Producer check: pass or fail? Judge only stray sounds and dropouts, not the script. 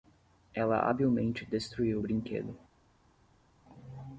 pass